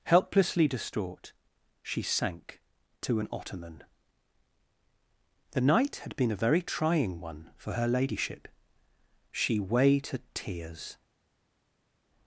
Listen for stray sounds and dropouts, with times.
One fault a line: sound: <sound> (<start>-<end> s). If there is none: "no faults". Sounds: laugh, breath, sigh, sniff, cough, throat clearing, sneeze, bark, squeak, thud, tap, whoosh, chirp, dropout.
no faults